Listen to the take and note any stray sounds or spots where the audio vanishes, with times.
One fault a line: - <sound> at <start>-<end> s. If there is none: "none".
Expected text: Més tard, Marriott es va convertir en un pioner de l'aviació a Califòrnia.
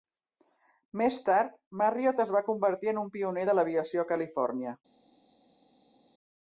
none